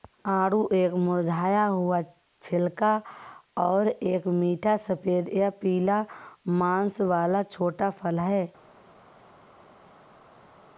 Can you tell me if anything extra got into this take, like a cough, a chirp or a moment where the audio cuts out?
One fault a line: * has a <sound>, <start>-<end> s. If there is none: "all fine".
all fine